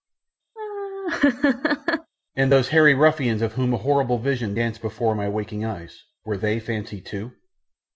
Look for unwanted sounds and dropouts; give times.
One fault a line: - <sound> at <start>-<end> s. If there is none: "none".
- laugh at 0.6-2.1 s